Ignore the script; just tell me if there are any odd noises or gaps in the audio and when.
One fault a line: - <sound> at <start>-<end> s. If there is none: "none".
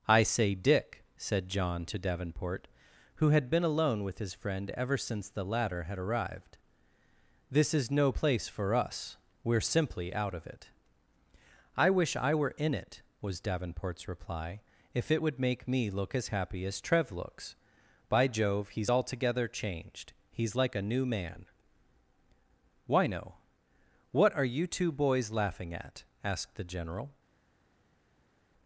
none